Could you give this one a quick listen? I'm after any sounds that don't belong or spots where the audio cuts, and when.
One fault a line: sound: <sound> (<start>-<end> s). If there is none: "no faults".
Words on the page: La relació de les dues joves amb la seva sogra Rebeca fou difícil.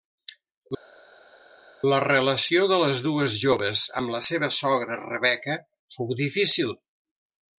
no faults